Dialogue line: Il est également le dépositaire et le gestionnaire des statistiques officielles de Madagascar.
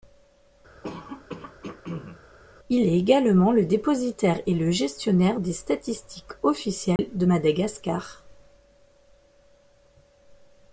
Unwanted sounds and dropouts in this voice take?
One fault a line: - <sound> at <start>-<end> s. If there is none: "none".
- throat clearing at 0.8-2.2 s
- dropout at 7.0-7.0 s